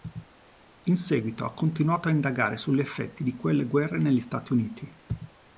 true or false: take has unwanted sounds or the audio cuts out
false